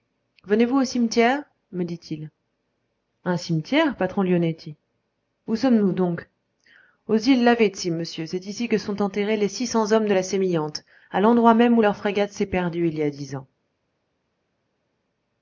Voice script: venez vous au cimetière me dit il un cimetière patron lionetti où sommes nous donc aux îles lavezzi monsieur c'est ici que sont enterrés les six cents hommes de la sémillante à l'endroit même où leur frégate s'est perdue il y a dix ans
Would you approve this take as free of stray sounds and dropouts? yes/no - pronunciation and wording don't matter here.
yes